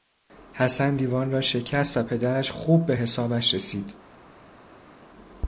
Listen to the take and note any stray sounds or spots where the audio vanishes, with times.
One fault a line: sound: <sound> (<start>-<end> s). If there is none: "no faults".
no faults